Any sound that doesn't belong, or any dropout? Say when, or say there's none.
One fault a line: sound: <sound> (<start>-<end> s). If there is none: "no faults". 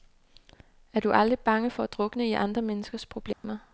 sound: dropout (3.3-3.4 s)